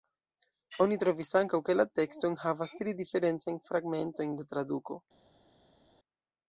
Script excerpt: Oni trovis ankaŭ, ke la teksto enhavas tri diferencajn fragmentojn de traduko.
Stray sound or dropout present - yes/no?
no